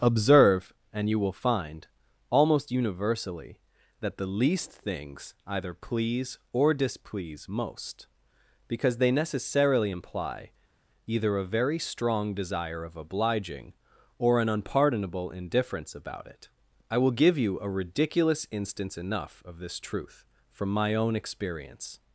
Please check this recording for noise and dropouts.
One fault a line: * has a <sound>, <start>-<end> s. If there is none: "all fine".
all fine